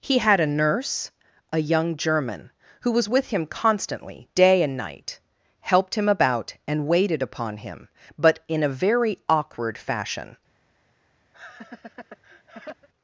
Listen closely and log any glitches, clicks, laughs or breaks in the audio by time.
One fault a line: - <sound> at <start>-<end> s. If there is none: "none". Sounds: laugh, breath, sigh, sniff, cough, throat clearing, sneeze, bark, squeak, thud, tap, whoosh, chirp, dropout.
- laugh at 11.3-12.9 s